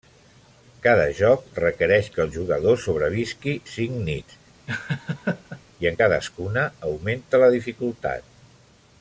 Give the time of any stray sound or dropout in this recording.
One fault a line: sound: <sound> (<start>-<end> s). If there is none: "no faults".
sound: laugh (4.7-5.6 s)